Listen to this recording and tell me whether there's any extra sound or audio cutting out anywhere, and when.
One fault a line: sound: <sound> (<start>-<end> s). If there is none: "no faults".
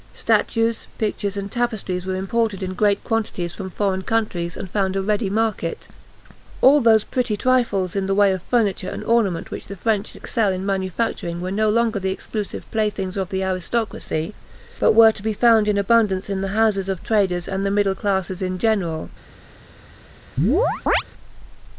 sound: chirp (20.4-21.0 s)